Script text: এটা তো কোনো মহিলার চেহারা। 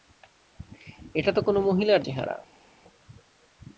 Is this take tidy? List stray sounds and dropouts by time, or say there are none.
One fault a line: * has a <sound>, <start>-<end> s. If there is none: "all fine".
all fine